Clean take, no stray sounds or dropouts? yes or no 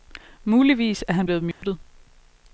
no